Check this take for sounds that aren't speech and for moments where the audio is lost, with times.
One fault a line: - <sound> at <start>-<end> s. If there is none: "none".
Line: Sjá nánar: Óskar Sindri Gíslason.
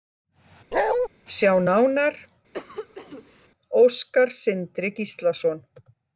- bark at 0.7-1.1 s
- cough at 2.5-3.5 s